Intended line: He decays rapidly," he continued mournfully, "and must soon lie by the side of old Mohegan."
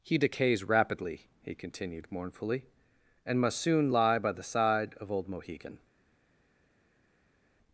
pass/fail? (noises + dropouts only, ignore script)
pass